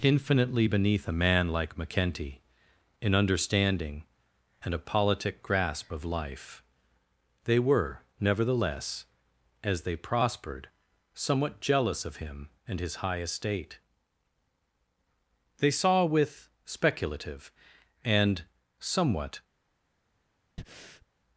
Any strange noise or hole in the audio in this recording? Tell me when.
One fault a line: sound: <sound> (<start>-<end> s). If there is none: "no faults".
sound: breath (20.6-21.1 s)